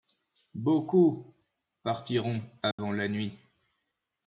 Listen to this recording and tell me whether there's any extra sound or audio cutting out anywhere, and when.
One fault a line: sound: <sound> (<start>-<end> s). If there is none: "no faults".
sound: dropout (2.7-2.8 s)